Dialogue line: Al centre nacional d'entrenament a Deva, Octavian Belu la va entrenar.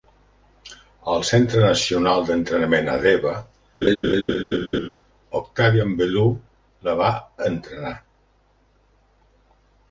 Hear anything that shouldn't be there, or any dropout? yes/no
yes